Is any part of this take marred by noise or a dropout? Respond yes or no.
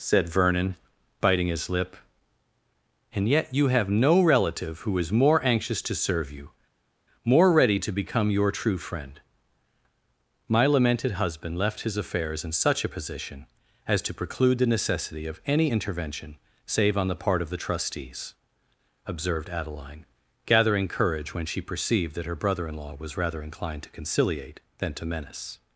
no